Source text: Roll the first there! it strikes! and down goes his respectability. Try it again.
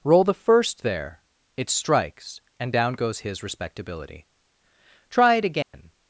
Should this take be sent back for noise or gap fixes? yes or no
yes